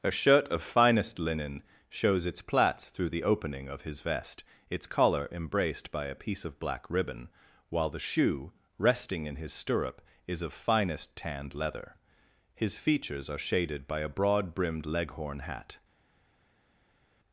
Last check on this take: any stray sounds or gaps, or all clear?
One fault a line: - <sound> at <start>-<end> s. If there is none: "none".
none